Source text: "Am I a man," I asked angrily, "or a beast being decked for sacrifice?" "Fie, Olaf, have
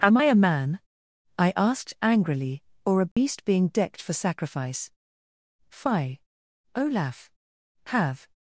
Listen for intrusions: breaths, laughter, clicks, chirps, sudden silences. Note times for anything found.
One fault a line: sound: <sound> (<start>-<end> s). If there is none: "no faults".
sound: dropout (3.1-3.2 s)